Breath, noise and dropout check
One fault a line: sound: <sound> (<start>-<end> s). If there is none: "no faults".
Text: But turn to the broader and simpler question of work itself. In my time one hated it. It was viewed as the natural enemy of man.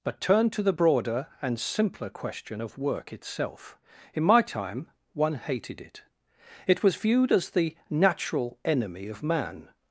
no faults